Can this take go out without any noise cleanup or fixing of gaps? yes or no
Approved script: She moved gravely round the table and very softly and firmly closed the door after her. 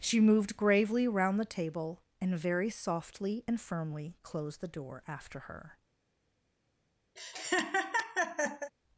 no